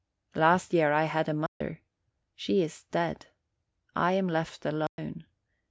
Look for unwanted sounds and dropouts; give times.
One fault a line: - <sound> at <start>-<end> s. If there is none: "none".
- dropout at 1.5-1.6 s
- dropout at 4.9-5.0 s